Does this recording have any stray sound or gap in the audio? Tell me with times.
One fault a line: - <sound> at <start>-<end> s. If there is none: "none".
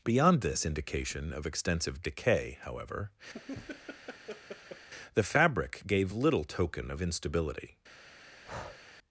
- laugh at 3.3-4.9 s
- breath at 8.4-8.8 s